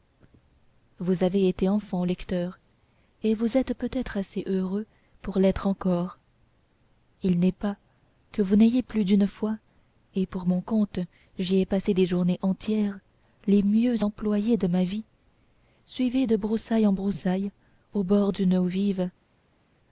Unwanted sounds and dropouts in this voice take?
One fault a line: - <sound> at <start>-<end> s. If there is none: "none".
none